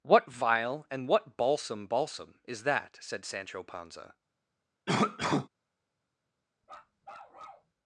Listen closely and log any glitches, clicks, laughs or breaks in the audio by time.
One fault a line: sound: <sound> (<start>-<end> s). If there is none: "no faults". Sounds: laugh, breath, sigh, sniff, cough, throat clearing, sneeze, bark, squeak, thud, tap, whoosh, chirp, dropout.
sound: cough (4.9-5.5 s)
sound: bark (6.6-7.7 s)